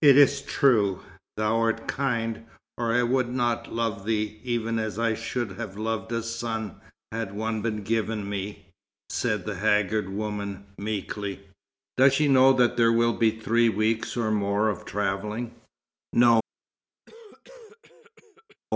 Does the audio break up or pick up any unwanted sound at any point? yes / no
yes